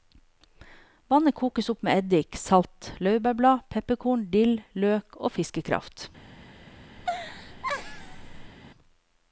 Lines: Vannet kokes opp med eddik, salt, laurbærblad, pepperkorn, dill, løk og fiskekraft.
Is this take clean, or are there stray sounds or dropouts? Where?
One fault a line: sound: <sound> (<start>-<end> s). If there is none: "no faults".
sound: laugh (7.0-8.5 s)